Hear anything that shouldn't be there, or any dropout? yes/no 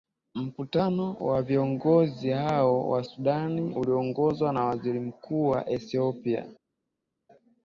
no